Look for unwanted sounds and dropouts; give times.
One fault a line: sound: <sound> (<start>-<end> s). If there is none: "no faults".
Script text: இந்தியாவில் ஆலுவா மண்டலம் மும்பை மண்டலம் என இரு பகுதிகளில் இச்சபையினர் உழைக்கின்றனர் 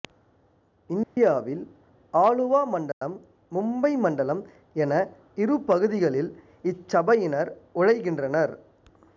sound: dropout (1.0-1.2 s)
sound: dropout (2.9-3.0 s)